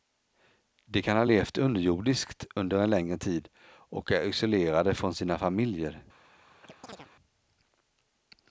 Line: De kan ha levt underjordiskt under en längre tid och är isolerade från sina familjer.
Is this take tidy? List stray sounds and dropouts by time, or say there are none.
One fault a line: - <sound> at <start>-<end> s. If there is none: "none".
- chirp at 6.6-7.1 s